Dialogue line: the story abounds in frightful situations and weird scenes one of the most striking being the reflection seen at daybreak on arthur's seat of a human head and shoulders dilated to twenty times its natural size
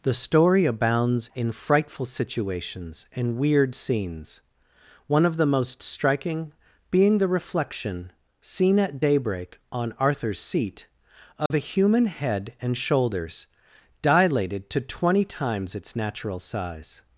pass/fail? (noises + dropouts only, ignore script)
fail